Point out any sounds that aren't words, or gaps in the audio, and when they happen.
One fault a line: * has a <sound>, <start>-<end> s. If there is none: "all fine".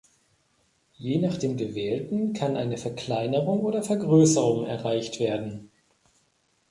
all fine